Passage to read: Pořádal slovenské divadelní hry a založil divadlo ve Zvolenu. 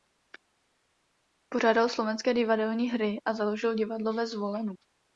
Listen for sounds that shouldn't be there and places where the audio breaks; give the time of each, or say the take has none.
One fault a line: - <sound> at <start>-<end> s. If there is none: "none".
none